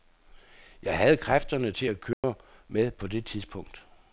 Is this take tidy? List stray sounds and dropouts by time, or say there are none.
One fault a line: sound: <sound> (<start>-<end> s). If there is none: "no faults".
sound: dropout (2.1-2.2 s)